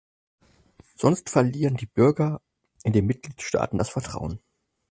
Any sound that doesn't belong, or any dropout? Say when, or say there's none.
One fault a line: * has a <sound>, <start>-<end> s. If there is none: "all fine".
all fine